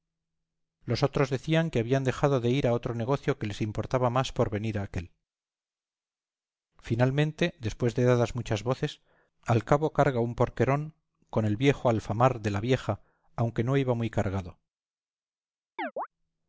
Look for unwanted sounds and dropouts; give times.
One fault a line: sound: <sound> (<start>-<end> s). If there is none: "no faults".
sound: chirp (15.8-16.1 s)